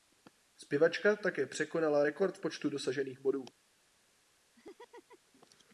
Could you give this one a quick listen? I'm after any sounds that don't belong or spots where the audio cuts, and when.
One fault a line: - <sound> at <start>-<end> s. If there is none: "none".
- laugh at 4.5-5.3 s